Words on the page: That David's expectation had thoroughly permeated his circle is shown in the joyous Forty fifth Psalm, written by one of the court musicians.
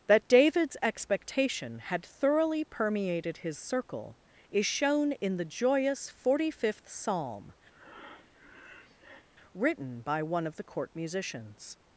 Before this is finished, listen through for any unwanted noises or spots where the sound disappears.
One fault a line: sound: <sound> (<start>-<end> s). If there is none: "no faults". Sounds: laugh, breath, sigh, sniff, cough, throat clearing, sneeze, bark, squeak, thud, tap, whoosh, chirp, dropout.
sound: breath (7.7-9.3 s)